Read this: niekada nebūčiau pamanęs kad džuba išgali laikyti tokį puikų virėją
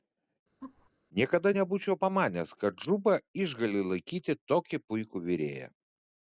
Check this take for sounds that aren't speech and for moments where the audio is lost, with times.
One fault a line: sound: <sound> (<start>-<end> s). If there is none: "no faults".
sound: laugh (0.6-0.9 s)